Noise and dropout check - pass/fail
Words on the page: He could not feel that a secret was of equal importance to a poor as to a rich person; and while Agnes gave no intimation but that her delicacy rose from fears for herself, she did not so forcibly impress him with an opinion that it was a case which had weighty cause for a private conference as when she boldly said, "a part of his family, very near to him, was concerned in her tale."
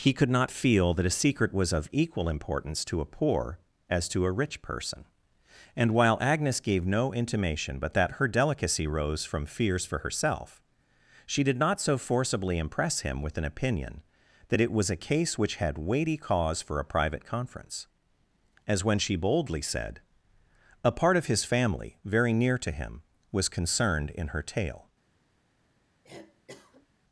fail